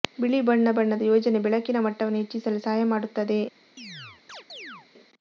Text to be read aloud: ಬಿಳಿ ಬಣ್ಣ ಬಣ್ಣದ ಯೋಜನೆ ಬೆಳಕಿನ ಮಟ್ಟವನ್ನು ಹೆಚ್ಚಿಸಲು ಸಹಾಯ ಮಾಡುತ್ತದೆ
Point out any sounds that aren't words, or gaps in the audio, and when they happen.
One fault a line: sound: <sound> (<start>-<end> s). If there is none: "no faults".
sound: chirp (3.8-4.9 s)